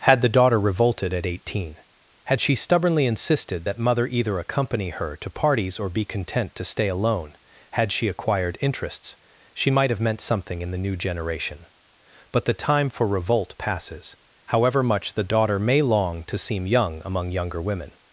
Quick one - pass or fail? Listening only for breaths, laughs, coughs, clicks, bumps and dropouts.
pass